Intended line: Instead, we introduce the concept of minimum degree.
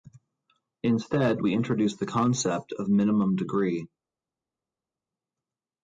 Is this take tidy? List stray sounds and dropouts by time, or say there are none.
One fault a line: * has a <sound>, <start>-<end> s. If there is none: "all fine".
all fine